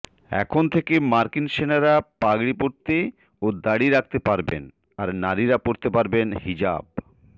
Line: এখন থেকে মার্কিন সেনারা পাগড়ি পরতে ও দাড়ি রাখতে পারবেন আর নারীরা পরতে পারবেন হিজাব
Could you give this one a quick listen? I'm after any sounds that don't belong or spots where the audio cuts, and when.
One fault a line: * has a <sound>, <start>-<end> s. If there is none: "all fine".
all fine